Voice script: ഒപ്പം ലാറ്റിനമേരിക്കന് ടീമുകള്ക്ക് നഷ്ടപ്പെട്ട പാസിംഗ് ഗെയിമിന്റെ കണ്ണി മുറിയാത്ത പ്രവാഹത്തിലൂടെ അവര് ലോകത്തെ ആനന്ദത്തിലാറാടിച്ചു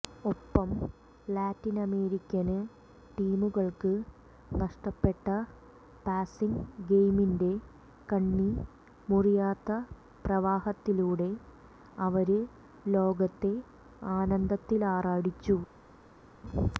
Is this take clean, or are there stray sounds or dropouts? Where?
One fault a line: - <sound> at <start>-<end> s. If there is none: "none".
none